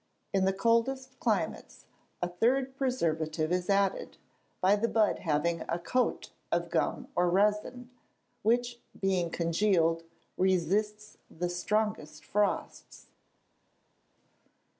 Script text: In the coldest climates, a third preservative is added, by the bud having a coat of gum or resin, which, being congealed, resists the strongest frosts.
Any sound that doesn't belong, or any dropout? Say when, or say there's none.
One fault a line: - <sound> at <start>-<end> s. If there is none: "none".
none